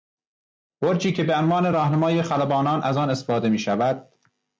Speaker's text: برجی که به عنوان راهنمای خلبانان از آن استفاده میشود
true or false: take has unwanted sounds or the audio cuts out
false